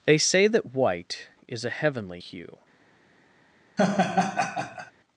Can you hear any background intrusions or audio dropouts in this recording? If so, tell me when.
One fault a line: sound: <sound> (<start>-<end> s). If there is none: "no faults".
sound: laugh (3.8-4.9 s)